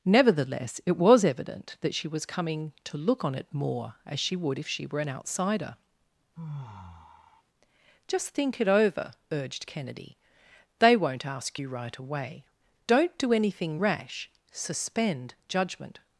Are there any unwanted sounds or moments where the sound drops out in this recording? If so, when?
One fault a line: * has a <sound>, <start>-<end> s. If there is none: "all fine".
* has a sigh, 6.4-7.4 s